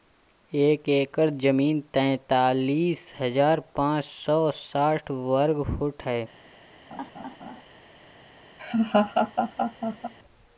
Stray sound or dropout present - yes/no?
yes